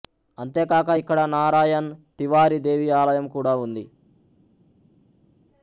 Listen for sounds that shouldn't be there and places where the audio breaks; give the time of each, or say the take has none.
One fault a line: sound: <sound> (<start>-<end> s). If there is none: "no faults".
no faults